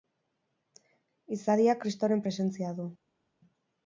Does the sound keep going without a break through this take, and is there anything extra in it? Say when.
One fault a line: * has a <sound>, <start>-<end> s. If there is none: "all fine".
all fine